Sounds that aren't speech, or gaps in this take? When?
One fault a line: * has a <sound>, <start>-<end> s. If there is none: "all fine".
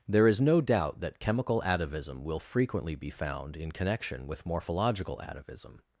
all fine